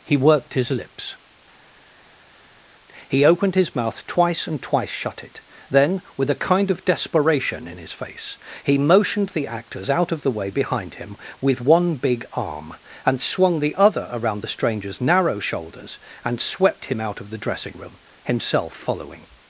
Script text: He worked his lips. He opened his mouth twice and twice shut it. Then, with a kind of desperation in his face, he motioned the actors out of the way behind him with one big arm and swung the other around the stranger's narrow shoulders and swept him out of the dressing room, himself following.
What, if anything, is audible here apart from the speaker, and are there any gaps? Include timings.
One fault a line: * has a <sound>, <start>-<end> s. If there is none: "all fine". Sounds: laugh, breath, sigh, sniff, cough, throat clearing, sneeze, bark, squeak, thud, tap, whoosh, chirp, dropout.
all fine